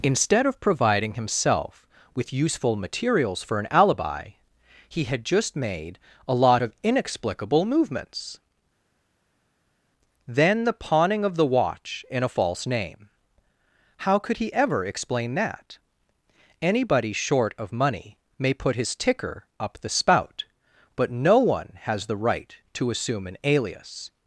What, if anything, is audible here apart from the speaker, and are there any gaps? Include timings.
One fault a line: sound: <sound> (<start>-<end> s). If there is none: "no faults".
no faults